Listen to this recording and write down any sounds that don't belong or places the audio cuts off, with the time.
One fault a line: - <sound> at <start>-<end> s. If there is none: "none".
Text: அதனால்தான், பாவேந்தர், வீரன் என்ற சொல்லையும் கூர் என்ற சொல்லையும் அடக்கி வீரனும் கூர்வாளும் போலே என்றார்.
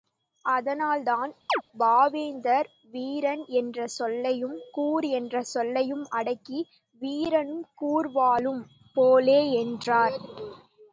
- chirp at 1.5-1.6 s